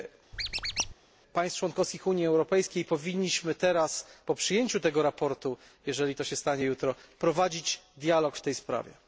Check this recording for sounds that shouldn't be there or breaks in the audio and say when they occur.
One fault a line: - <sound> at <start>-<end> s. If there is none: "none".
- squeak at 0.3-0.9 s